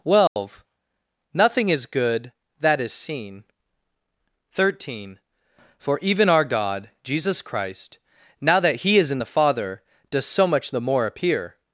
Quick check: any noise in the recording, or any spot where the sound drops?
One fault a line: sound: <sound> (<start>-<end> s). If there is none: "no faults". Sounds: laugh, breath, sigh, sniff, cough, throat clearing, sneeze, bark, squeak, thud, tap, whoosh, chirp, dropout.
sound: dropout (0.3-0.4 s)